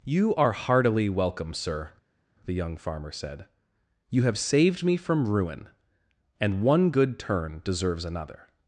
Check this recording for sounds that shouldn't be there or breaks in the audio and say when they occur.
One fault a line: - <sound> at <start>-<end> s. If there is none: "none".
none